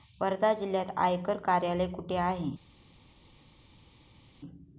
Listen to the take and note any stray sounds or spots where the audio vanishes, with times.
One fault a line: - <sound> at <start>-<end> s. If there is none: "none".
none